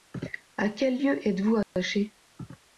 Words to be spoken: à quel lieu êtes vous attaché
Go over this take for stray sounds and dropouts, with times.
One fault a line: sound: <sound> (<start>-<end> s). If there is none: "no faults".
sound: dropout (1.6-1.8 s)